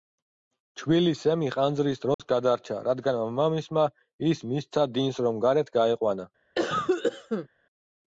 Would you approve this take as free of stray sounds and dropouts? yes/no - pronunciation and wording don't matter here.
no